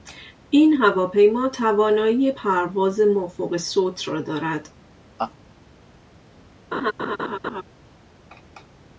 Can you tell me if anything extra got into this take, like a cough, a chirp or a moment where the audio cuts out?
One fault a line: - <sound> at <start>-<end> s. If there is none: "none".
- laugh at 5.2-5.3 s
- laugh at 6.7-7.6 s